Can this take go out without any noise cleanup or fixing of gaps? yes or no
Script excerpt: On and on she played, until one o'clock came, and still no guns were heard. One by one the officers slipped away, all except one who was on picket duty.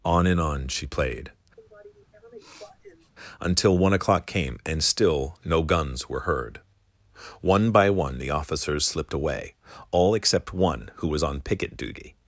no